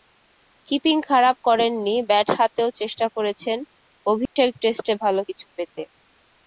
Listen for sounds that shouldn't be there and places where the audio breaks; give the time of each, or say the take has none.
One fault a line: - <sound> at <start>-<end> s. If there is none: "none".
- dropout at 4.3-4.4 s